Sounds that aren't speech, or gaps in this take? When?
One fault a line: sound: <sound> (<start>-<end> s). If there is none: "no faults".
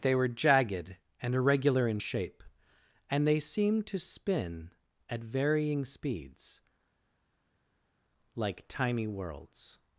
no faults